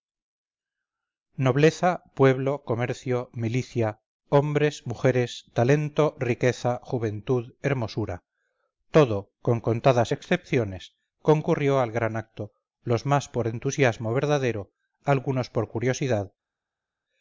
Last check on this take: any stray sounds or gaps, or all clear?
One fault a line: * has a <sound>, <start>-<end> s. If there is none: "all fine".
all fine